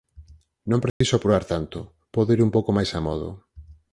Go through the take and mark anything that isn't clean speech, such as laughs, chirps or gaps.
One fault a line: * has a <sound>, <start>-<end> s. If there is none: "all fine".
* has a dropout, 0.9-1.0 s